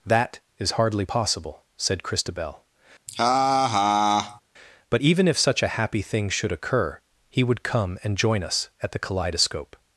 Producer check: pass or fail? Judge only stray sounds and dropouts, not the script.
fail